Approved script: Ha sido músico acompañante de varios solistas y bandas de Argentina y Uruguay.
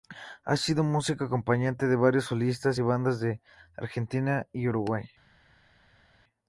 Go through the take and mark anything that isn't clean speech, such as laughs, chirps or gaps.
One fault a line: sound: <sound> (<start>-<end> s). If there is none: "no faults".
no faults